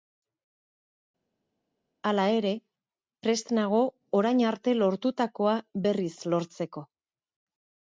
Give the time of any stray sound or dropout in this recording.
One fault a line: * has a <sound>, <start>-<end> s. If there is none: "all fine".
all fine